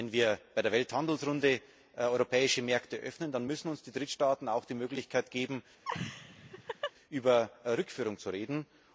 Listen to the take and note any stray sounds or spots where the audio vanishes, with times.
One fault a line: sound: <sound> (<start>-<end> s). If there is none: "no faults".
sound: laugh (5.8-6.9 s)